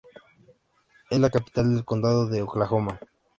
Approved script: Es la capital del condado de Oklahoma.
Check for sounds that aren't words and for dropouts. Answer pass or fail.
pass